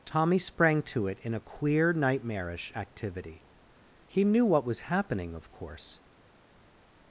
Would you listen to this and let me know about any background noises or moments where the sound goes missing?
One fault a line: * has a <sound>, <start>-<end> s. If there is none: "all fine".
all fine